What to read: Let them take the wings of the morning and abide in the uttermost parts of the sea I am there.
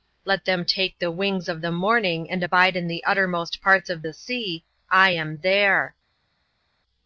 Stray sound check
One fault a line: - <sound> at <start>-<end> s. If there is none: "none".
none